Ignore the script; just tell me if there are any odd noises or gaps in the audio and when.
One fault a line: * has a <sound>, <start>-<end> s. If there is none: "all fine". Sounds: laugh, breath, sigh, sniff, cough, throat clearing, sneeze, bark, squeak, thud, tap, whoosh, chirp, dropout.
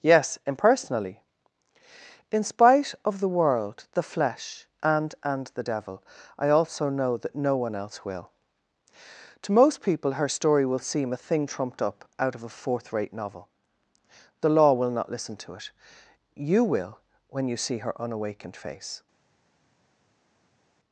all fine